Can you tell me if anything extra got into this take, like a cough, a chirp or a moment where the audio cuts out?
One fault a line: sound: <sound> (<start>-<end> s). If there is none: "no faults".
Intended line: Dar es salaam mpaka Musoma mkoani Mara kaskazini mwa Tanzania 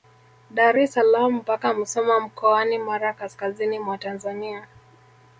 no faults